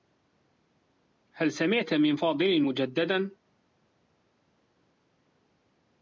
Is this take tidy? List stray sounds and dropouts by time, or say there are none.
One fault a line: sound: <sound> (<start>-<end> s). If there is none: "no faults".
no faults